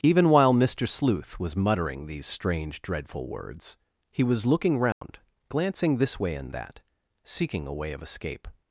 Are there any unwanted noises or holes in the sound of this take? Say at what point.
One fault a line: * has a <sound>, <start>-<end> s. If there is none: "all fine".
* has a dropout, 4.9-5.0 s